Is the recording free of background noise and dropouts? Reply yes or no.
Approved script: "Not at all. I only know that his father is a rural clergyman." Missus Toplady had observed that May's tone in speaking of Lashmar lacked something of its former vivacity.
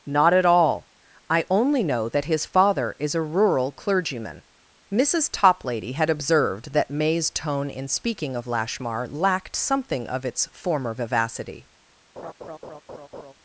no